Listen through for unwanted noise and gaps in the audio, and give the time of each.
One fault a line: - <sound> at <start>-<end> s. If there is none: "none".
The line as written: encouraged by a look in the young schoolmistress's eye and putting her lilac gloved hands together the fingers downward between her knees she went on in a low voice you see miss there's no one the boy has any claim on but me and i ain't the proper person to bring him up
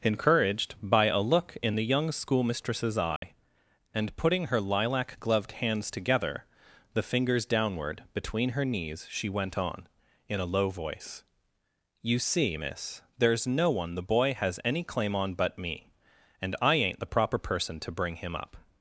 - dropout at 3.2-3.2 s